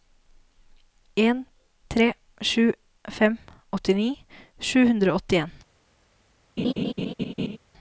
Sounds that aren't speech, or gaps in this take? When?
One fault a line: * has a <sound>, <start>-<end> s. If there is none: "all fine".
* has a laugh, 6.6-7.6 s